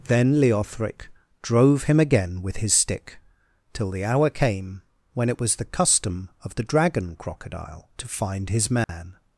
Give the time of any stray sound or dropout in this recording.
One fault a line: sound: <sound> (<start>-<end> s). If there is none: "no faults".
sound: dropout (8.8-8.9 s)